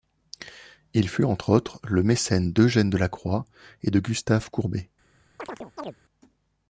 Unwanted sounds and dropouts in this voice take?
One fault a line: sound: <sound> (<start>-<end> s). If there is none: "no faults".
sound: chirp (5.4-6.0 s)